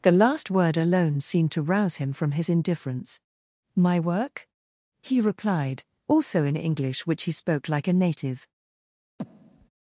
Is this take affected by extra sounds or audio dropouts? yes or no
yes